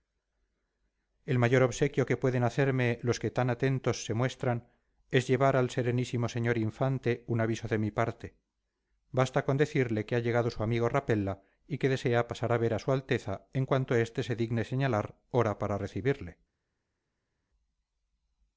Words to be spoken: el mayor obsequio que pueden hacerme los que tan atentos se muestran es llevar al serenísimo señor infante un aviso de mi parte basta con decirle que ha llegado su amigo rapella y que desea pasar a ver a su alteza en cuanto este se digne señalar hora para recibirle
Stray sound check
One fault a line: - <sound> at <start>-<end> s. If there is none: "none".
none